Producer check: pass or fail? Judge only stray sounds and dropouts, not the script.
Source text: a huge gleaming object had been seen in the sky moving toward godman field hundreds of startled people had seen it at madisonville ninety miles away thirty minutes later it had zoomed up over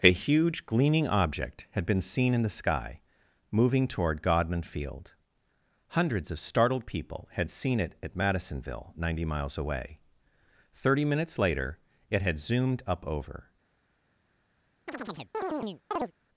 fail